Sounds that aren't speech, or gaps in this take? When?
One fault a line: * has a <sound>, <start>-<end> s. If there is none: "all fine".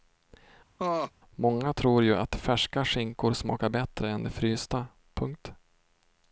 * has a laugh, 0.8-1.1 s